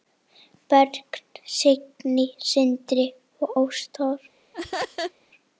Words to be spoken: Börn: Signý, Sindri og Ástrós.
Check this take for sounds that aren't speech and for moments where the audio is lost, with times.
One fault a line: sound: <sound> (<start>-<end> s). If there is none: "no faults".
sound: laugh (4.5-5.1 s)